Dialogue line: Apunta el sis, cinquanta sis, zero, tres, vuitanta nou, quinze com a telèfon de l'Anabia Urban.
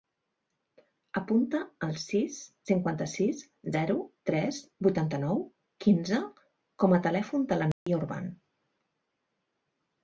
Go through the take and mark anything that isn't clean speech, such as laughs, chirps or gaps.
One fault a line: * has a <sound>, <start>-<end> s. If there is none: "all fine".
* has a dropout, 7.7-7.9 s